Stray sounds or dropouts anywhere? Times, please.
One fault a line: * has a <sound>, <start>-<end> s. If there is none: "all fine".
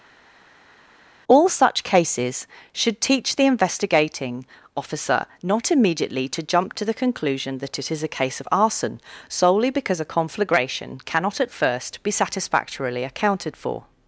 all fine